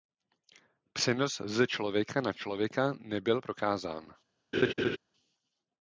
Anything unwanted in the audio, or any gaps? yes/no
yes